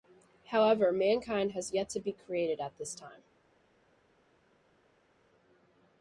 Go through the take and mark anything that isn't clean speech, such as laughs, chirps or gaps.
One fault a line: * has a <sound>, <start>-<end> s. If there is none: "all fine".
all fine